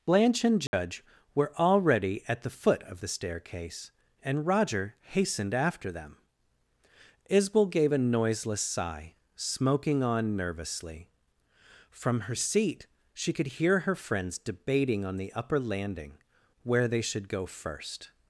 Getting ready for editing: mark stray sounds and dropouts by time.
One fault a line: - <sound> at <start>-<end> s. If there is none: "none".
- dropout at 0.7-0.7 s